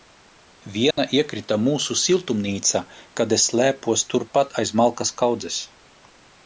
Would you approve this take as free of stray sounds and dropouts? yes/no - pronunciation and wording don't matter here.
no